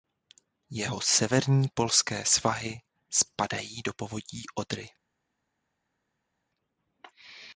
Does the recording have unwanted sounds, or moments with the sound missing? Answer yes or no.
no